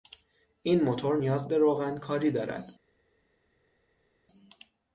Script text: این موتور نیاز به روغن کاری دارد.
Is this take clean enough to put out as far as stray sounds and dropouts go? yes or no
yes